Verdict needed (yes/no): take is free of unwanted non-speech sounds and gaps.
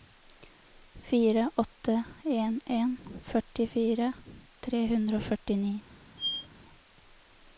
no